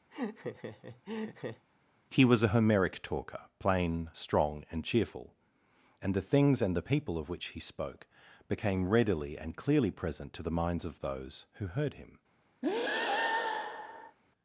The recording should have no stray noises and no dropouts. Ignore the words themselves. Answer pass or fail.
fail